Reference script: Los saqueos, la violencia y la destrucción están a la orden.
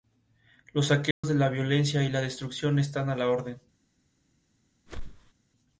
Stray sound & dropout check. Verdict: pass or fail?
fail